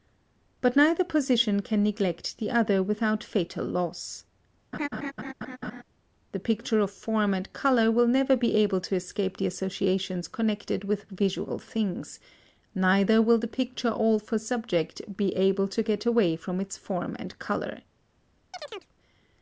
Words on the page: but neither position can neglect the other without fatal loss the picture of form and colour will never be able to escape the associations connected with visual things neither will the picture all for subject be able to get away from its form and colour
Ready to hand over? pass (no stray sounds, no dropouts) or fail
fail